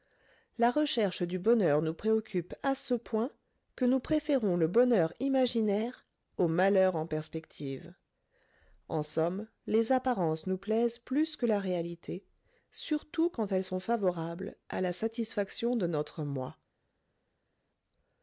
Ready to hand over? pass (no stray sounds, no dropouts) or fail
pass